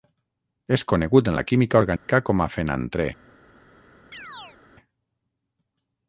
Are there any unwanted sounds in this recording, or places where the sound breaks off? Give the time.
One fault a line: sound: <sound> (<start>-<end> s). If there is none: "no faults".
sound: dropout (2.0-2.1 s)
sound: chirp (4.1-4.6 s)